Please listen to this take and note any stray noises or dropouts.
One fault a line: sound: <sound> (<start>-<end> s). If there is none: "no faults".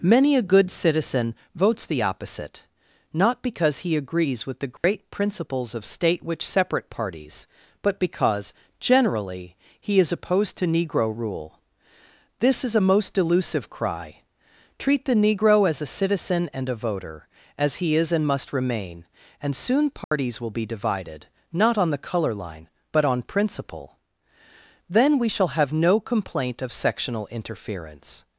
sound: dropout (4.8-4.8 s)
sound: dropout (20.0-20.1 s)